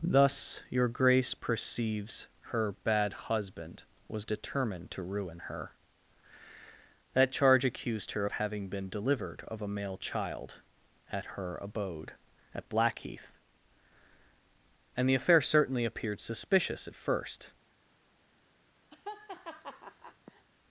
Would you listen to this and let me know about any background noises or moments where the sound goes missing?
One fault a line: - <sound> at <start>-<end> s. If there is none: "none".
- laugh at 18.9-20.5 s